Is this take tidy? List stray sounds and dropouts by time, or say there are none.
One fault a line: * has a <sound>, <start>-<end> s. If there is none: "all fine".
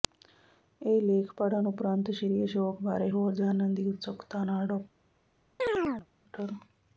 * has a chirp, 5.6-6.1 s